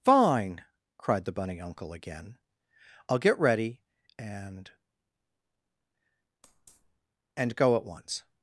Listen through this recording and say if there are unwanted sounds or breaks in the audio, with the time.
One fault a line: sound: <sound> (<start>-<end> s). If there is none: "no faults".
no faults